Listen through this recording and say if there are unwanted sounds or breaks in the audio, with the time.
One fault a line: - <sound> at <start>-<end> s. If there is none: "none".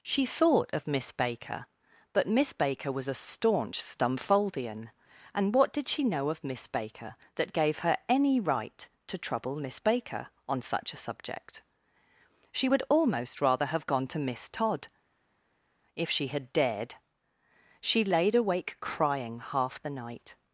none